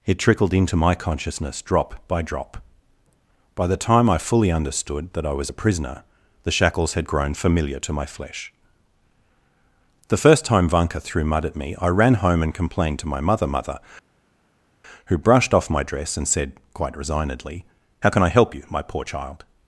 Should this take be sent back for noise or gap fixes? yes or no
no